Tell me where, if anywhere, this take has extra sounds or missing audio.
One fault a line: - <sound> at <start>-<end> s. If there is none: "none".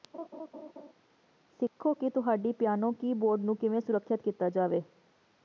- laugh at 0.1-0.9 s